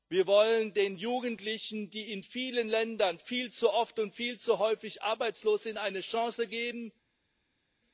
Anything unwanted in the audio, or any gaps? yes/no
no